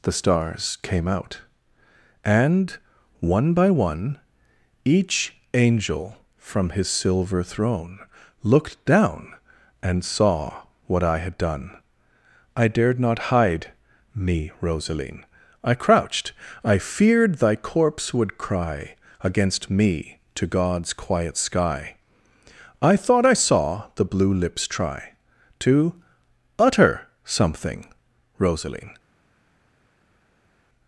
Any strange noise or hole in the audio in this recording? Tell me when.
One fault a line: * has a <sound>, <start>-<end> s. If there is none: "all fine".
all fine